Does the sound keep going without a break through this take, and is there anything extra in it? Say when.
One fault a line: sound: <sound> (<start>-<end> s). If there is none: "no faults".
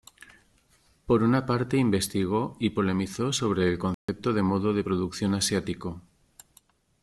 sound: dropout (3.9-4.1 s)